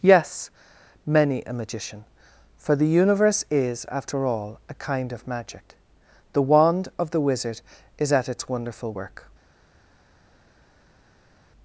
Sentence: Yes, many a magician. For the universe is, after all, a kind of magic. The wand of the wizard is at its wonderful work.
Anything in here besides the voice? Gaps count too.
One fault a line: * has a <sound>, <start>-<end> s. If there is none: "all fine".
all fine